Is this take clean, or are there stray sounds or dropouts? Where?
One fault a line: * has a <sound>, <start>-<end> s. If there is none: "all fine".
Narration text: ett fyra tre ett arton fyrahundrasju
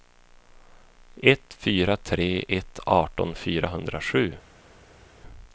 all fine